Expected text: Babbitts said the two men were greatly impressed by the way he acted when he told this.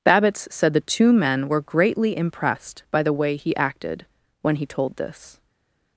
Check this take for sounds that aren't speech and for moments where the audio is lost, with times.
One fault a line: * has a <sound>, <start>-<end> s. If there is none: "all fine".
all fine